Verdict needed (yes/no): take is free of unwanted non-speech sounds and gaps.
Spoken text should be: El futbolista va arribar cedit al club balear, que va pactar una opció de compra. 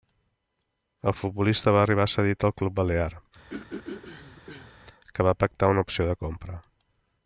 no